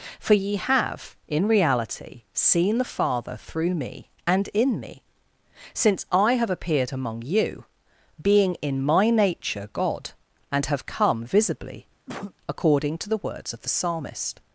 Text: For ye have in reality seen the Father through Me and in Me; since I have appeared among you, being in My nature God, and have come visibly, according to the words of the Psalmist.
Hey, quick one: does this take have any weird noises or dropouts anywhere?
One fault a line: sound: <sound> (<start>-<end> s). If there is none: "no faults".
sound: cough (12.1-12.3 s)